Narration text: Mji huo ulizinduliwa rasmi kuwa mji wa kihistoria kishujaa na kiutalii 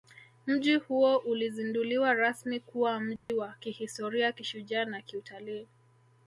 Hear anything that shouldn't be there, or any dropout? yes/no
yes